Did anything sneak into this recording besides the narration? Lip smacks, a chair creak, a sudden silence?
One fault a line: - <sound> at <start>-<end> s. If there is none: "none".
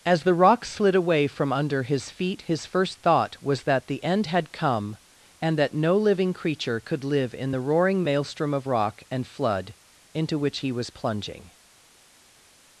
none